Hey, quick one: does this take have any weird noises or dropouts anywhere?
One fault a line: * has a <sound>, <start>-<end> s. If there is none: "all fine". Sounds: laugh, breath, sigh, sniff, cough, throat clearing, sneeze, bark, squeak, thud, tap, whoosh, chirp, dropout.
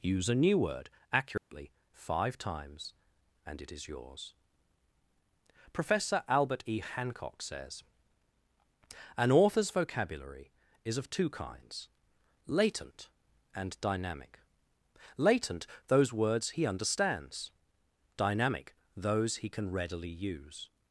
* has a dropout, 1.4-1.5 s